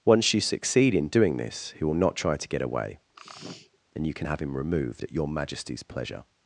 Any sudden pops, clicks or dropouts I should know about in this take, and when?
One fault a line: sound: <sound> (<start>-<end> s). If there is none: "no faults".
sound: sneeze (3.1-3.8 s)